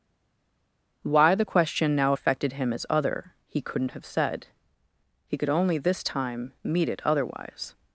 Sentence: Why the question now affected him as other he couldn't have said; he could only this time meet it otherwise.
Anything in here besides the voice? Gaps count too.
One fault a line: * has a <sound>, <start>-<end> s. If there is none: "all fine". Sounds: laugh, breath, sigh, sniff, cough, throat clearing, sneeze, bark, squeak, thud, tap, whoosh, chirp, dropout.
all fine